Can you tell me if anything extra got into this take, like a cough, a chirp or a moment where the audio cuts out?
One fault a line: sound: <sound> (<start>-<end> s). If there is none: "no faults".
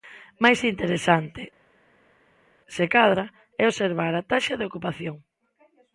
no faults